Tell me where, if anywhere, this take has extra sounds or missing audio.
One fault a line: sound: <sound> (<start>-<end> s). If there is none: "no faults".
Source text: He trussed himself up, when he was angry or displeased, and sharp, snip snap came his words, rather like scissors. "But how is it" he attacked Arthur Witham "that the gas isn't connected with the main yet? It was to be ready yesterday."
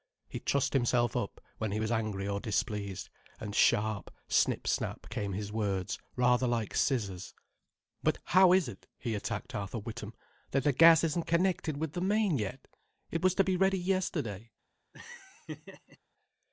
sound: laugh (14.9-16.0 s)